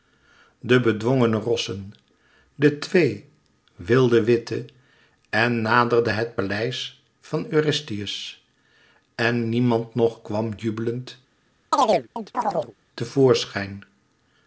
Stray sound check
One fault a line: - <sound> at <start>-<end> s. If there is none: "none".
- chirp at 11.7-12.7 s